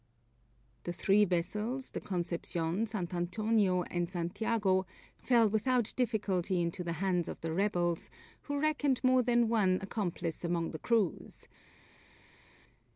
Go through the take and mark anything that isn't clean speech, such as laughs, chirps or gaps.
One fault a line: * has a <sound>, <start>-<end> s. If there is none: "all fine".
all fine